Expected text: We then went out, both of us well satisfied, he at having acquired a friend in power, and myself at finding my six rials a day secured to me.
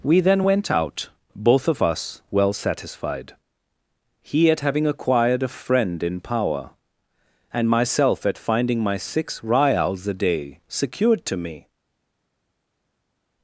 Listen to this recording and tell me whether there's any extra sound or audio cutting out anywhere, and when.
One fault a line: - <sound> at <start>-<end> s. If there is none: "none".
none